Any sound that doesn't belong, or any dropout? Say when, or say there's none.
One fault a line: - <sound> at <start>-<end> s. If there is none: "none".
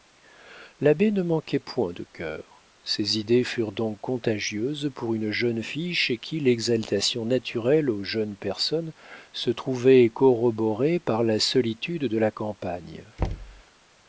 - thud at 13.2-13.6 s